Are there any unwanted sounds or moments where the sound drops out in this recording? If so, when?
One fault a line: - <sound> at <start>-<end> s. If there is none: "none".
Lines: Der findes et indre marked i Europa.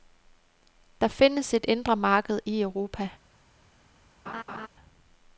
- laugh at 4.3-4.7 s